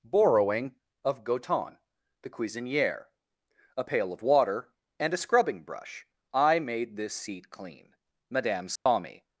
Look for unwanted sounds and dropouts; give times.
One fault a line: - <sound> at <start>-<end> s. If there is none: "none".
- dropout at 8.8-8.9 s